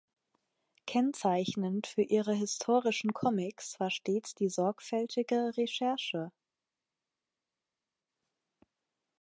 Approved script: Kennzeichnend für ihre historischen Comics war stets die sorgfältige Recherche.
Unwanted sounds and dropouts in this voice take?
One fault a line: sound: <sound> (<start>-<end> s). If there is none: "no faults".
no faults